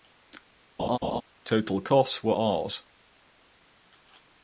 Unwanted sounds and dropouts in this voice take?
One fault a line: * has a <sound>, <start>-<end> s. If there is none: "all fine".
* has a laugh, 0.8-1.2 s